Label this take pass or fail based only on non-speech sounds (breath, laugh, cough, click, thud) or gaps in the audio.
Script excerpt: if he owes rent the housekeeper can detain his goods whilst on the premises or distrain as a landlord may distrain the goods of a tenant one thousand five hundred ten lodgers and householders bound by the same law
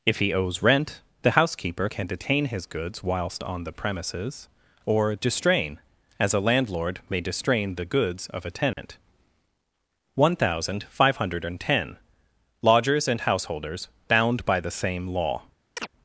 fail